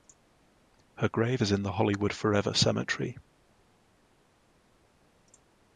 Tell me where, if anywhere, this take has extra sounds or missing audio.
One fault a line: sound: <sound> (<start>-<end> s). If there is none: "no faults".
no faults